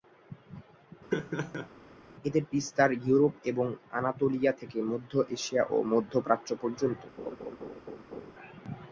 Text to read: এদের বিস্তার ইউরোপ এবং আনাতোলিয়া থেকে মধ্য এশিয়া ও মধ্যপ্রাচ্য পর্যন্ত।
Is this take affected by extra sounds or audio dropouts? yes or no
yes